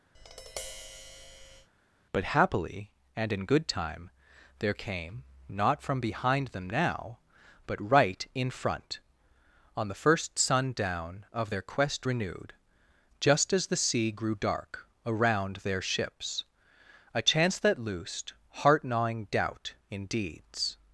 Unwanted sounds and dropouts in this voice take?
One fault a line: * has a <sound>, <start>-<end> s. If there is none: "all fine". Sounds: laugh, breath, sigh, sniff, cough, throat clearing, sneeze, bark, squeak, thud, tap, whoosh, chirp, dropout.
* has a tap, 0.1-1.7 s